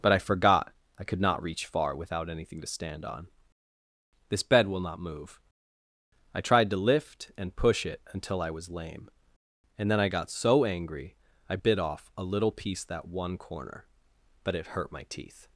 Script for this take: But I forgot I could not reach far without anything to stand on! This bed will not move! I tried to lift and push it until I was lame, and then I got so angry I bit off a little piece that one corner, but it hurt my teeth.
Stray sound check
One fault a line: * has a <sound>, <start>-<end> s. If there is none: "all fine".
all fine